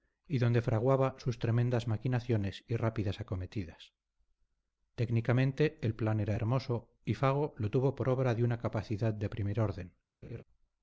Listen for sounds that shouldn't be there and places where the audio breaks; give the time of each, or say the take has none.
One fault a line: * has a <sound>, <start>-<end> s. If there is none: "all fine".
* has a laugh, 10.2-10.4 s